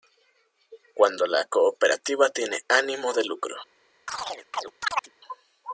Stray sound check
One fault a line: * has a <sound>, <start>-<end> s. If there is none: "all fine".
* has a chirp, 4.1-5.1 s